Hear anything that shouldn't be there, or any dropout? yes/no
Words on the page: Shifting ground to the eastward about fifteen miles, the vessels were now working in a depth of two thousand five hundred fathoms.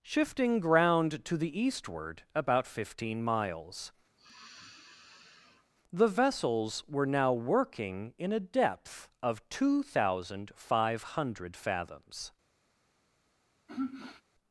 yes